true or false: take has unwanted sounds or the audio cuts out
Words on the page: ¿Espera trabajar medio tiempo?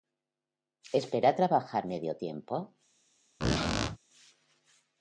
true